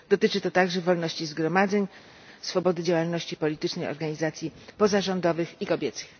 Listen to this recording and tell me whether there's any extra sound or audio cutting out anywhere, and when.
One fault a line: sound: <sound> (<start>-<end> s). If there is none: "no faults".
no faults